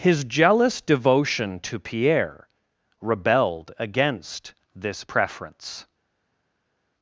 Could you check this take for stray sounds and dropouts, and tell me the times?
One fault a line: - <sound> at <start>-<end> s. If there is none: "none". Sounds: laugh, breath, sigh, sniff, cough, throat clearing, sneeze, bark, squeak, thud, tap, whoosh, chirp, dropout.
none